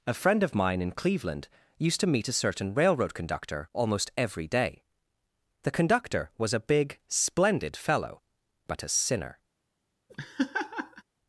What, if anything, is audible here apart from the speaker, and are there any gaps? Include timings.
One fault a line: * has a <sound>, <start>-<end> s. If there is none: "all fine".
* has a laugh, 10.1-11.0 s